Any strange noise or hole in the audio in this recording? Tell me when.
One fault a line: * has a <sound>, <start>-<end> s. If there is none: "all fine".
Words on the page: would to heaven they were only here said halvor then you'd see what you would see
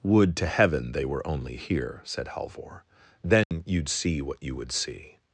* has a dropout, 3.4-3.5 s